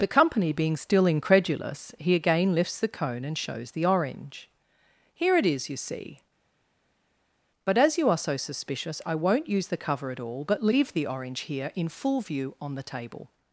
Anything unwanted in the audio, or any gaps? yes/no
no